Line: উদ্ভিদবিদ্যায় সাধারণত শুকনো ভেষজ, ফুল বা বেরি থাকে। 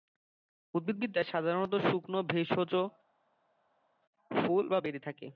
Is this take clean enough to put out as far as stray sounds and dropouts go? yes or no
yes